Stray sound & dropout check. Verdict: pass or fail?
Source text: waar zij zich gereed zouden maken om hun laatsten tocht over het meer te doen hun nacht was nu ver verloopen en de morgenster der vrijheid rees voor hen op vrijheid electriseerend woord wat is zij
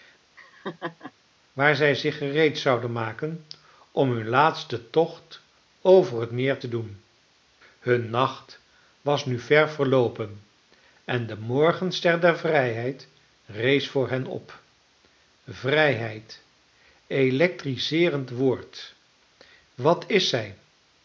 fail